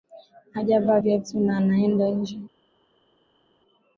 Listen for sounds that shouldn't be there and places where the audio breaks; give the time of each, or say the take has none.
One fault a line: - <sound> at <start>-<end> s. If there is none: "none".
none